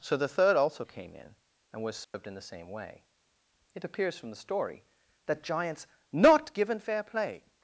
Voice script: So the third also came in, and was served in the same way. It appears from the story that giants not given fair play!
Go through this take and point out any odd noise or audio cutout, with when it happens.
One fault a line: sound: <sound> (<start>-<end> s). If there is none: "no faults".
sound: dropout (2.0-2.1 s)